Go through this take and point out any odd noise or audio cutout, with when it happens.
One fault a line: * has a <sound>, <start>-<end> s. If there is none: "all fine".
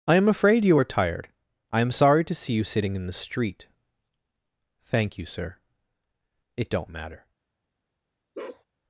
* has a bark, 8.3-8.6 s